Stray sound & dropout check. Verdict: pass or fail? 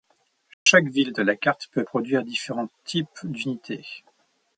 fail